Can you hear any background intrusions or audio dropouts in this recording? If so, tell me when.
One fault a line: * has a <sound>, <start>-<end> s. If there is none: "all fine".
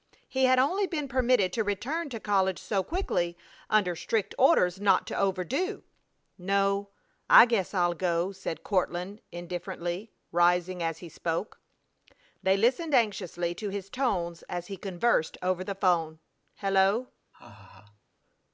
* has a laugh, 17.3-18.0 s